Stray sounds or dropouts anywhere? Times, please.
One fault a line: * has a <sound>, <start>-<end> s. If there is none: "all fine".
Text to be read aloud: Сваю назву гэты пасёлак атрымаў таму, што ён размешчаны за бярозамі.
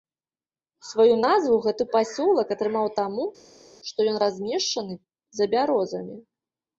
all fine